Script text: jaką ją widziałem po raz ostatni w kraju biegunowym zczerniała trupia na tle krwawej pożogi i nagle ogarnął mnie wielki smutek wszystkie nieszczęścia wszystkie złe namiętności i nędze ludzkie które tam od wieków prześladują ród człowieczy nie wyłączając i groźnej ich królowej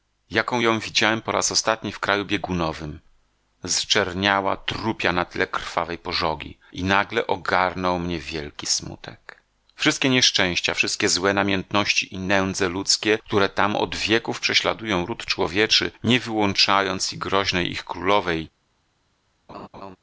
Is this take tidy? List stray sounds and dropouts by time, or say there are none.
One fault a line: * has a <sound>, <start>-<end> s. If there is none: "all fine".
* has a laugh, 19.5-20.0 s